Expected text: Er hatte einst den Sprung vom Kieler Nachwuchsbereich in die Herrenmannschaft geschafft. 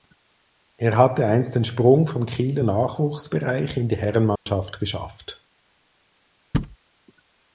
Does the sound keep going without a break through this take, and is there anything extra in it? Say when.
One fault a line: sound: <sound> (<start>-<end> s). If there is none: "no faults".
sound: dropout (4.4-4.5 s)
sound: thud (6.5-6.8 s)